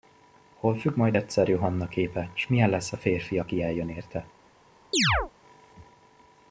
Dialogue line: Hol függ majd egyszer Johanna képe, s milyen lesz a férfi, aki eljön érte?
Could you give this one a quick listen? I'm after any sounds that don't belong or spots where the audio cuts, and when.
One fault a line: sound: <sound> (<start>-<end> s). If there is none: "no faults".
sound: chirp (4.9-5.3 s)